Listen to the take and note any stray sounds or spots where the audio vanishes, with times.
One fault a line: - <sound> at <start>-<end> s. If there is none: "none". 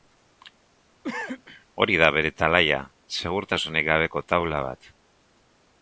- cough at 1.0-1.7 s